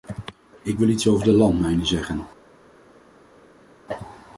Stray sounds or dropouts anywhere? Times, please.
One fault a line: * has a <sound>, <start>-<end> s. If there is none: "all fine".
all fine